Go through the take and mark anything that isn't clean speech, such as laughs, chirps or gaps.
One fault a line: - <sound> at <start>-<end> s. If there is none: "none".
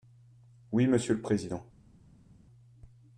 none